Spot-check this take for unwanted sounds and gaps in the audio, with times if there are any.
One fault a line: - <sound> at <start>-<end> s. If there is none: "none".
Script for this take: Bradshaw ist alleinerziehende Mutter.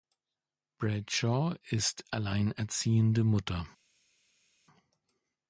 none